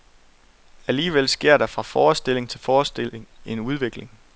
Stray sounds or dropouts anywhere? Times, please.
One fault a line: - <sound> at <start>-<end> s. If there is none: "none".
none